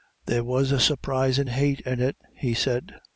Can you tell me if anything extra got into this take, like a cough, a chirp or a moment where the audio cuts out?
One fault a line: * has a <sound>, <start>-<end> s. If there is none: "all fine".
all fine